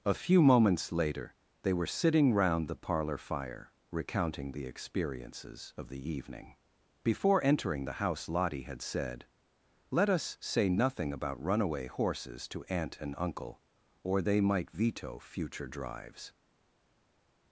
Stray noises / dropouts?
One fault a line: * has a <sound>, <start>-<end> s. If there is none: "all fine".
all fine